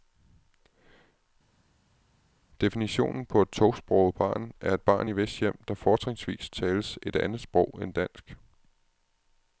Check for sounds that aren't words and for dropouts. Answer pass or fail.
pass